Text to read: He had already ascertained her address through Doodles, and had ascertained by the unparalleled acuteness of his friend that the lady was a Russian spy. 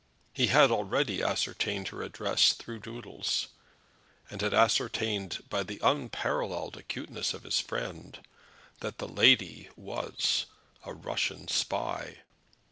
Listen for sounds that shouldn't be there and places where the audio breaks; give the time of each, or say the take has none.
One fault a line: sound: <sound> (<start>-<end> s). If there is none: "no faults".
no faults